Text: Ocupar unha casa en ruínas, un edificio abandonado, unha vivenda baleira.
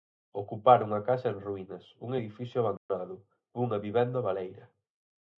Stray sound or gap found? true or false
true